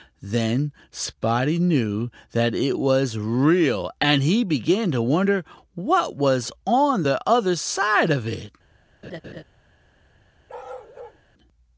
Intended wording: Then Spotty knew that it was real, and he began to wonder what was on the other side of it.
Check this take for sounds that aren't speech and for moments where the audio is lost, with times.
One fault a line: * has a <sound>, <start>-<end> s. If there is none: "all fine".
* has a laugh, 9.0-9.4 s
* has a bark, 10.5-11.2 s